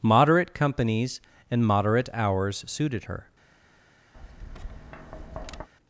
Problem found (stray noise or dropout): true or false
true